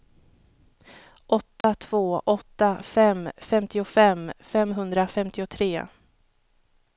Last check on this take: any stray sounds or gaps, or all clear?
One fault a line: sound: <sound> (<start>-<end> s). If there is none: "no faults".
sound: dropout (1.6-1.6 s)